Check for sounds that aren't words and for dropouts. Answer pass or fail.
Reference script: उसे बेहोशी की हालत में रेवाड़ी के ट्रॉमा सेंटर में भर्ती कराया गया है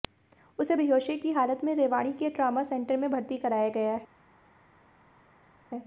pass